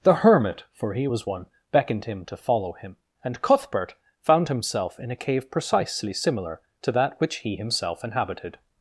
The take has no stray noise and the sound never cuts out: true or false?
true